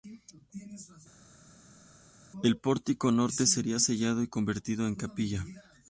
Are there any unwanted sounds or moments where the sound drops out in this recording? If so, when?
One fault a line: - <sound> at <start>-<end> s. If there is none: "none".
none